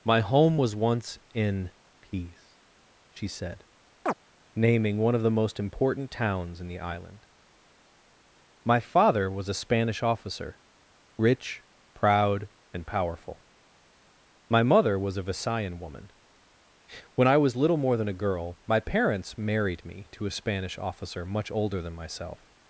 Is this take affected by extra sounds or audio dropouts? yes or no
yes